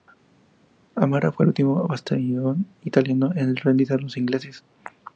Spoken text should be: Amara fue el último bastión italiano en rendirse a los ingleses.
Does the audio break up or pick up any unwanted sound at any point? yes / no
no